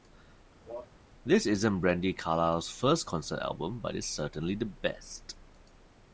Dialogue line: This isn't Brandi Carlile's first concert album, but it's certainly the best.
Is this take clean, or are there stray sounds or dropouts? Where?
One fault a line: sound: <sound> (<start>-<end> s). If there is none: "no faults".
sound: cough (0.7-0.9 s)